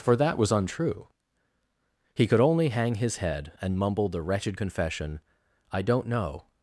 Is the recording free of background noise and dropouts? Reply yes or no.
yes